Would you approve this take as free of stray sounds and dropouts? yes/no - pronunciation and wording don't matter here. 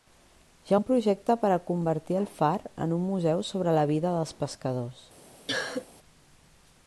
no